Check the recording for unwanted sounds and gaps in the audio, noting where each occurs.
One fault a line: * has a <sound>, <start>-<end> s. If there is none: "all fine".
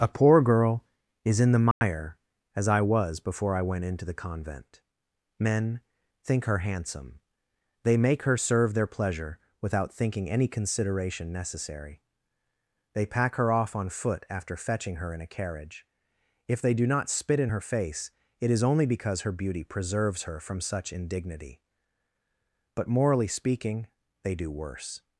* has a dropout, 1.7-1.8 s